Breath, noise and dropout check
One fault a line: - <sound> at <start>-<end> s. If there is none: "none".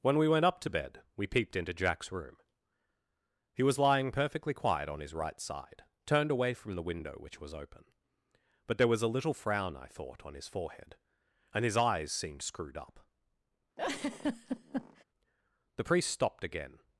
- laugh at 13.8-15.0 s